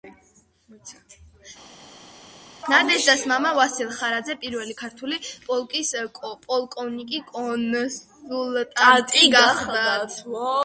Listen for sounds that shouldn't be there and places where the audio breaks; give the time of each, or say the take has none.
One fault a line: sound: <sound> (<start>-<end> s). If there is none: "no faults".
no faults